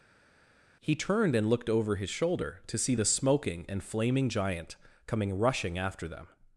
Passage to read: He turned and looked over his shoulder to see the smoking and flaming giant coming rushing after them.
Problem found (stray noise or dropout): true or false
false